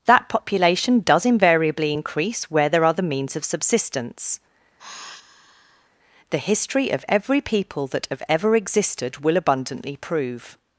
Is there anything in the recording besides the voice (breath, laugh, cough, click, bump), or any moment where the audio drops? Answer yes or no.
yes